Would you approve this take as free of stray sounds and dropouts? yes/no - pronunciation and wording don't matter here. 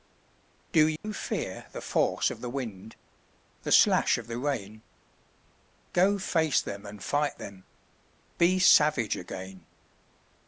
no